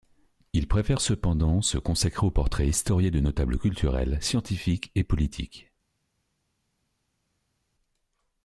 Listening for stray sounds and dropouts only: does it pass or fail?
pass